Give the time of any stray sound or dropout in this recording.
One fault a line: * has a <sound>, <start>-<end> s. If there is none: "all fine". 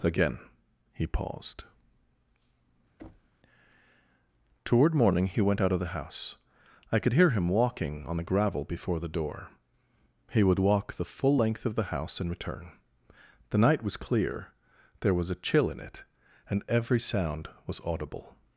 * has a thud, 3.0-3.4 s